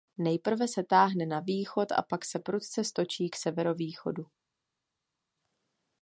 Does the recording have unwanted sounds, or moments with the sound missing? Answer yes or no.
no